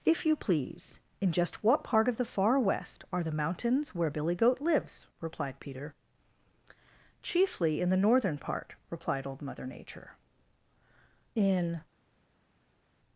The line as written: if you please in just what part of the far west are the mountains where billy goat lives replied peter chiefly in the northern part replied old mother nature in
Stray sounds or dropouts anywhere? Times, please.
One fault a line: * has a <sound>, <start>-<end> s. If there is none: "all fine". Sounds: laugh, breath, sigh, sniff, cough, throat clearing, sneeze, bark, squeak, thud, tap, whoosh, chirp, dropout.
all fine